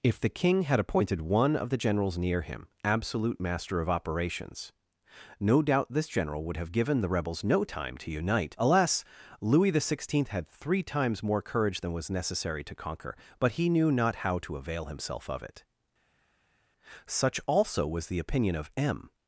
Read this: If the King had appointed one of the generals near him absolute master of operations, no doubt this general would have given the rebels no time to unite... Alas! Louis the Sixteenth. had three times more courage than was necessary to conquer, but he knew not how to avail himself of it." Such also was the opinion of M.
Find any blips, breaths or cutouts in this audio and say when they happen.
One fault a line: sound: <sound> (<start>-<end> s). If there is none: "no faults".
no faults